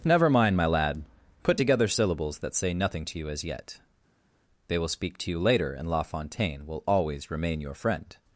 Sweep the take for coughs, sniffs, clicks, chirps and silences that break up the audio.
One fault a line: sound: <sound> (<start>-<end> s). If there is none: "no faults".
no faults